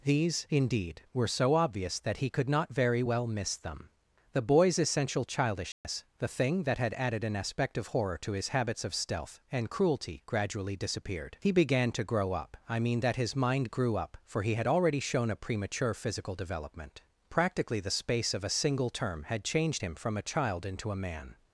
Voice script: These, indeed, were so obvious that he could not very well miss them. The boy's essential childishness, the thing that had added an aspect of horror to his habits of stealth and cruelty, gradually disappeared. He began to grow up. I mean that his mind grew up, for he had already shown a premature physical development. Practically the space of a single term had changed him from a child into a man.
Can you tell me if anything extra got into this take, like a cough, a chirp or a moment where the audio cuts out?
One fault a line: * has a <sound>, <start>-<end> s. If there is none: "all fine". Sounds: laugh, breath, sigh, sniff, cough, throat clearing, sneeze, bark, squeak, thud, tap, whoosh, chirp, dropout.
* has a dropout, 5.7-5.8 s